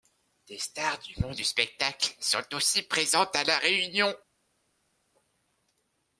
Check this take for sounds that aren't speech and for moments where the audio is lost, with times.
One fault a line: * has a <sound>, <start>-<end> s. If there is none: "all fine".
all fine